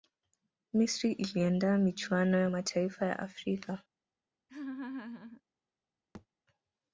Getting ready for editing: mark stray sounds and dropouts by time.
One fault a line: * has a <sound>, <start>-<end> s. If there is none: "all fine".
* has a laugh, 4.5-5.4 s
* has a thud, 6.1-6.3 s